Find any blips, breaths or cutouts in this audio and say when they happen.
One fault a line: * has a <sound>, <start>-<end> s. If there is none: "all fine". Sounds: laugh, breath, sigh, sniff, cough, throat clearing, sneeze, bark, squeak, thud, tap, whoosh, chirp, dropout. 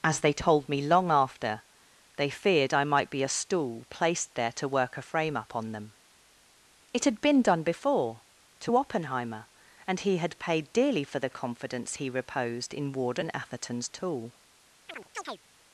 * has a chirp, 14.9-15.4 s